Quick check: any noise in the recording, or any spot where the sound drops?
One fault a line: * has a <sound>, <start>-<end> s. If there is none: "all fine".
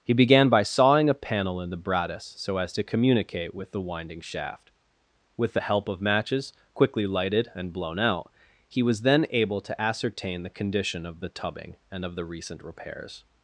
all fine